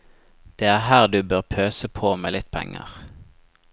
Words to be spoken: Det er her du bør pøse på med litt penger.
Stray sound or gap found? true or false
false